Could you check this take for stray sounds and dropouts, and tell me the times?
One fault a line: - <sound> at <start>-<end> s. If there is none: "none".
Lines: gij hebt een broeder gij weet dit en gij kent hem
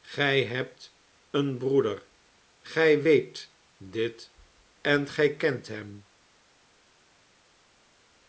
none